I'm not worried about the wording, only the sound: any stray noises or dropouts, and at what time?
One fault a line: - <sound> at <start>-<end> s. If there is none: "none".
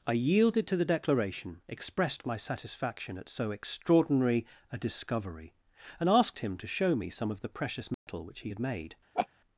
- dropout at 7.9-8.1 s
- laugh at 9.1-9.3 s